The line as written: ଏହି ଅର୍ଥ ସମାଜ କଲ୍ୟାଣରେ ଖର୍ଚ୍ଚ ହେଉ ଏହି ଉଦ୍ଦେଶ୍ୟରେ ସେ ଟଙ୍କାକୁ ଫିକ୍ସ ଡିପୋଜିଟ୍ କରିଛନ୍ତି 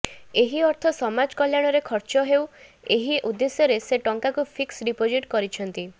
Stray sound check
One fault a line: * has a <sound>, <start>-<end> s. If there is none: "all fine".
all fine